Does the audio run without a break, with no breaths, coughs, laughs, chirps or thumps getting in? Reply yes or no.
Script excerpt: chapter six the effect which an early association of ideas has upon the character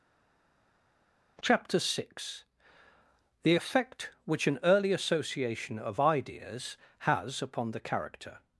yes